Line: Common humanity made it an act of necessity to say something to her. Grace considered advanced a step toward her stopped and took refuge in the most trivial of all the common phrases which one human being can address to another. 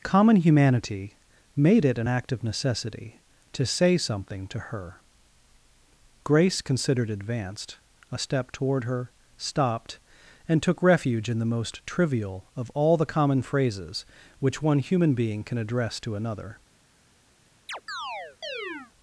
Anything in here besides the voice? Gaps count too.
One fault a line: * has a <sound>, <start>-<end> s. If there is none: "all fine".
* has a chirp, 17.7-18.9 s